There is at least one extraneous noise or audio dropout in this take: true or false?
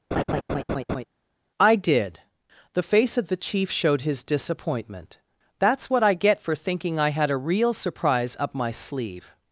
true